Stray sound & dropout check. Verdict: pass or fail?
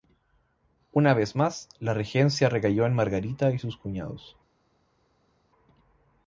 pass